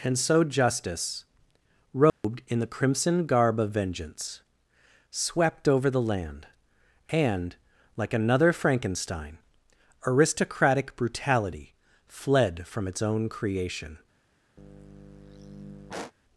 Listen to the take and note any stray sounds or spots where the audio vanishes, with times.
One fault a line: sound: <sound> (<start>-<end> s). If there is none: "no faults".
sound: dropout (2.1-2.2 s)
sound: sigh (14.6-16.1 s)